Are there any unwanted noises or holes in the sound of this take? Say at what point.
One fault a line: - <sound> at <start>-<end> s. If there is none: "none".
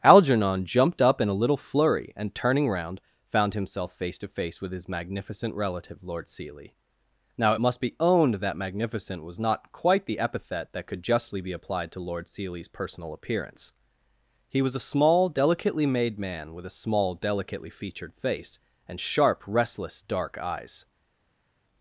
none